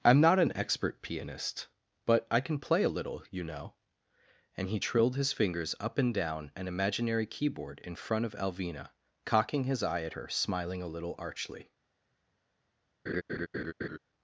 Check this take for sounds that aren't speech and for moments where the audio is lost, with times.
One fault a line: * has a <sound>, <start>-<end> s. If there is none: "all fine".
* has a laugh, 13.1-14.0 s